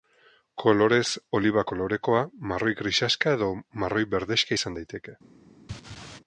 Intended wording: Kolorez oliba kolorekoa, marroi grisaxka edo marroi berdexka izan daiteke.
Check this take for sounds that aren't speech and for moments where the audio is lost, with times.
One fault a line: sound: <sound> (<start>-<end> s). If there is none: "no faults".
sound: laugh (5.7-6.2 s)